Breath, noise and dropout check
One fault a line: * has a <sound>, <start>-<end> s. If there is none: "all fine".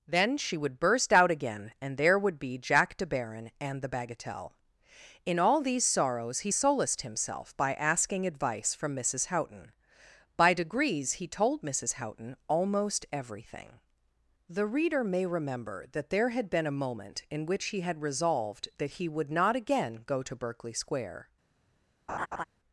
* has a laugh, 22.1-22.4 s